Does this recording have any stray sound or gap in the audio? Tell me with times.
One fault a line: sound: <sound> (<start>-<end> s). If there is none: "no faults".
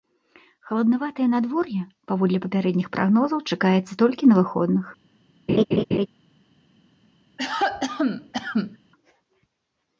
sound: laugh (5.5-6.1 s)
sound: cough (7.4-8.8 s)